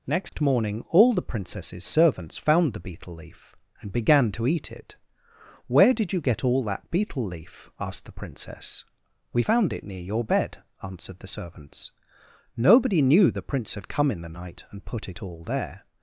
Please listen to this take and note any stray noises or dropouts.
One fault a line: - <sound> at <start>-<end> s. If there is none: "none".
- dropout at 0.3-0.3 s